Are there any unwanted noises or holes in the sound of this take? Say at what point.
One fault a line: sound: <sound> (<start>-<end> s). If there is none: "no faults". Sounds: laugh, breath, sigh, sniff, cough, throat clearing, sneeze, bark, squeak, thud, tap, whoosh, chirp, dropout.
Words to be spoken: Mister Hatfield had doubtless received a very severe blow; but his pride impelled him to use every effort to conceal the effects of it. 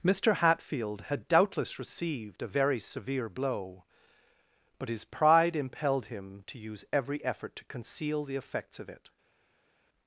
no faults